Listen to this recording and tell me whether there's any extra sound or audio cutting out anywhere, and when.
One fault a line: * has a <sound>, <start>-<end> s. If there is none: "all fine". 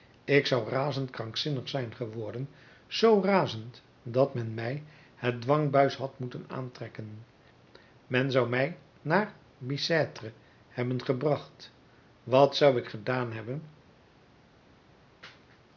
all fine